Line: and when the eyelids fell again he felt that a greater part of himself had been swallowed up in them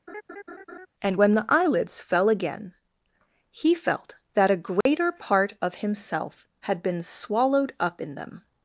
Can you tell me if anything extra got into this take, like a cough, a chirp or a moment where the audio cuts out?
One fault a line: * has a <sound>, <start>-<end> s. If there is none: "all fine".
* has a laugh, 0.1-0.9 s
* has a dropout, 4.8-4.9 s